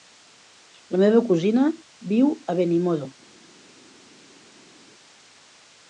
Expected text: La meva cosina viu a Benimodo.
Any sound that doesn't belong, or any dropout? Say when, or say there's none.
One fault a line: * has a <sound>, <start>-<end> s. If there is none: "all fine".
all fine